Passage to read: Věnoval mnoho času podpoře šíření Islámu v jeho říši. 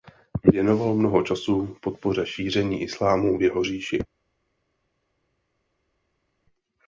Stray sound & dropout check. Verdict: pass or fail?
pass